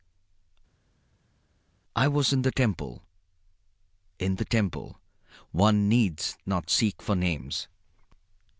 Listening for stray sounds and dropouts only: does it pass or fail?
pass